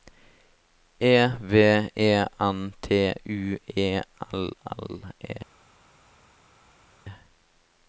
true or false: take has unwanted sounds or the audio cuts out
false